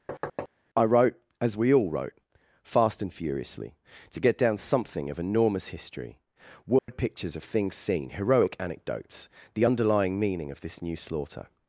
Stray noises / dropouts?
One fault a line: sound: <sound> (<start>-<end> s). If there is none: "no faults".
sound: thud (0.1-0.5 s)
sound: dropout (6.8-6.9 s)